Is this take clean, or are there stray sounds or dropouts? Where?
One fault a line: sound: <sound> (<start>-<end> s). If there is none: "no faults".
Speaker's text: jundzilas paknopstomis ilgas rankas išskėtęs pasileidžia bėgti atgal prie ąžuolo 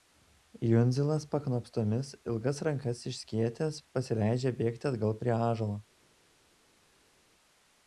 no faults